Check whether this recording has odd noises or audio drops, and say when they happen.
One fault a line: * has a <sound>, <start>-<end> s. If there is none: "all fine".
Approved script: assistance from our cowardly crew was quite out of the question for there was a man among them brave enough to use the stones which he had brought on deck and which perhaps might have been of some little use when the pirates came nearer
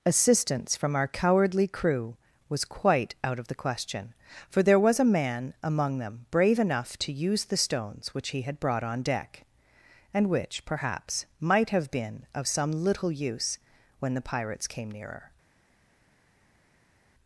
all fine